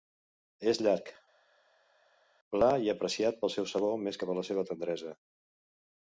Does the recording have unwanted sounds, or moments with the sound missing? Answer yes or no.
no